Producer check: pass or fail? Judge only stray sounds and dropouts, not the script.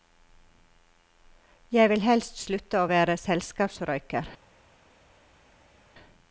pass